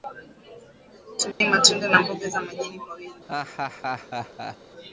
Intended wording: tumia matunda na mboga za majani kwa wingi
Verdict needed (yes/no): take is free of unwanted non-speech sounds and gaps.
no